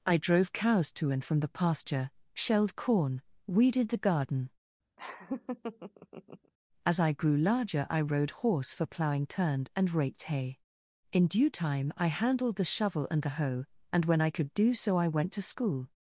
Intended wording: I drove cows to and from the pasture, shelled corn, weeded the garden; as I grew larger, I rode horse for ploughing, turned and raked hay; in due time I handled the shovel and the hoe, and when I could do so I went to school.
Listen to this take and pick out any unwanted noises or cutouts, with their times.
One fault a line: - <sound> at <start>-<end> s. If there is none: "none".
- laugh at 5.0-6.5 s